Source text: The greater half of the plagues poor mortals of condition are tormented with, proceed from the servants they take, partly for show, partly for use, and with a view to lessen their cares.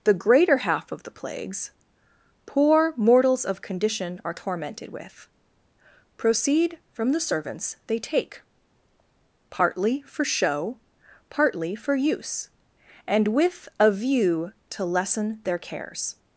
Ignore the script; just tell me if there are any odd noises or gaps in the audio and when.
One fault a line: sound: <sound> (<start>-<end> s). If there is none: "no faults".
no faults